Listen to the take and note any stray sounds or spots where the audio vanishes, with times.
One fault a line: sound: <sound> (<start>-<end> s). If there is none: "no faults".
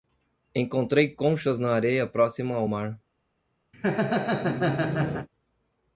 sound: laugh (3.7-5.3 s)